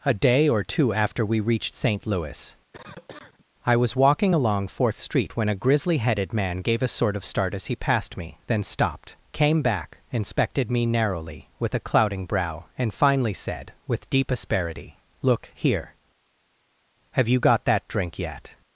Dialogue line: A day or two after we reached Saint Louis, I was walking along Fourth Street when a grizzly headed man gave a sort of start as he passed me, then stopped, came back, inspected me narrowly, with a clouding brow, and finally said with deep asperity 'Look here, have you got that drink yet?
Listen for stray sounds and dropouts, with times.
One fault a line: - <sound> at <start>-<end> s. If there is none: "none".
- cough at 2.7-3.5 s